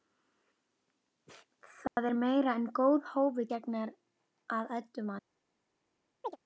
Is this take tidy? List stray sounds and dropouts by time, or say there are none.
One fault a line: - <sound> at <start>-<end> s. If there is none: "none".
- dropout at 1.9-2.0 s
- chirp at 6.2-6.4 s